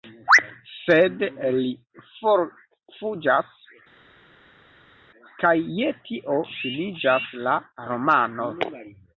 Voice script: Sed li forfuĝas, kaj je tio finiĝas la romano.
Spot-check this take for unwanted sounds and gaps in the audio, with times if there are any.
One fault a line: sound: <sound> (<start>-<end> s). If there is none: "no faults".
no faults